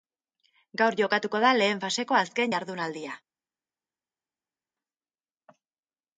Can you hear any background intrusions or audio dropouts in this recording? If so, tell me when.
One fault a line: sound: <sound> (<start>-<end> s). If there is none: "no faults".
no faults